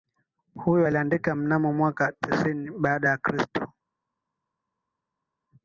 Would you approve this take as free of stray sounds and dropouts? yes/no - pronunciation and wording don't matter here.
yes